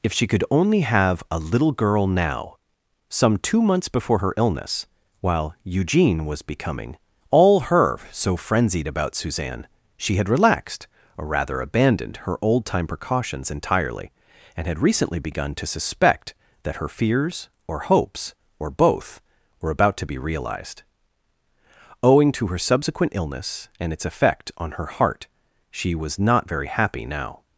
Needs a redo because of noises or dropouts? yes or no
no